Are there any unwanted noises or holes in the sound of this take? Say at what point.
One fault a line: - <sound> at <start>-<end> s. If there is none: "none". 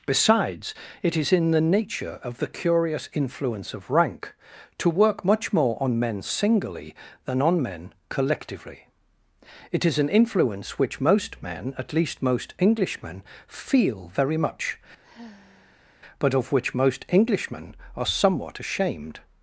- sigh at 15.0-16.0 s